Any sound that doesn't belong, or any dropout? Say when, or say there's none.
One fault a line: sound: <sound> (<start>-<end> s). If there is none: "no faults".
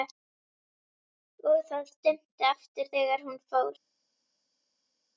no faults